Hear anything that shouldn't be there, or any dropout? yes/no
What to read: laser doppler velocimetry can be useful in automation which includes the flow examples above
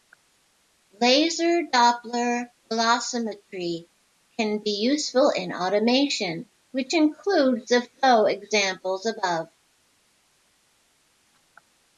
no